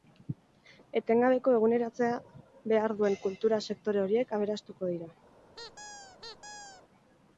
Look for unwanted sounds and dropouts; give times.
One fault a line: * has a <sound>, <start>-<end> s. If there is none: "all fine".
* has a squeak, 5.5-6.8 s